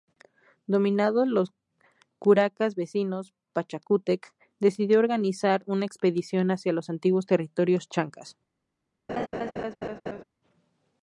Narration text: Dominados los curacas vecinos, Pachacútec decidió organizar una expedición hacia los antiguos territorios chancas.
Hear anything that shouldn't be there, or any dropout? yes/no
yes